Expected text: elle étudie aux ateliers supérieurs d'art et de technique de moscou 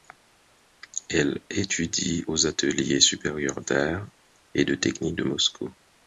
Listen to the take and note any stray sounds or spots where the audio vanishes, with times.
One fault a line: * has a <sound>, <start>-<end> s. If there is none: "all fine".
all fine